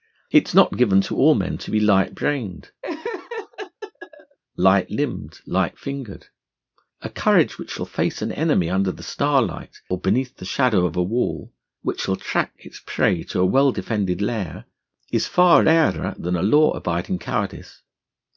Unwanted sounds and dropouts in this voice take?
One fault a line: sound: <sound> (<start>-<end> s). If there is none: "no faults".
sound: laugh (2.8-4.4 s)